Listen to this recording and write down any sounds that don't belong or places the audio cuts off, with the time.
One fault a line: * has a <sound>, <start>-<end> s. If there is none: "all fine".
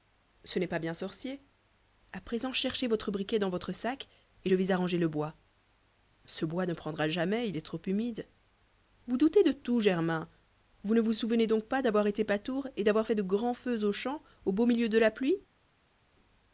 all fine